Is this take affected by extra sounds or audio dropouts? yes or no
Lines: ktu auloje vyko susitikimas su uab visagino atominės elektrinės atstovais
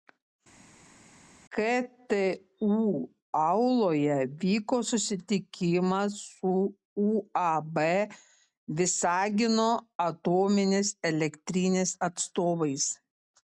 no